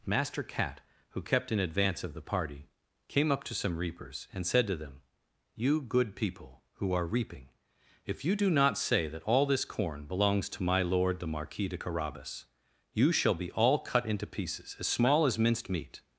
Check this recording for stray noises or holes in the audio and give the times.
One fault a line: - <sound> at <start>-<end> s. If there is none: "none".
none